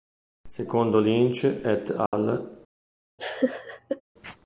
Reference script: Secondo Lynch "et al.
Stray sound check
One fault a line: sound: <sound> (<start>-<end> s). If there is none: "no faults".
sound: dropout (2.1-2.1 s)
sound: laugh (3.2-4.0 s)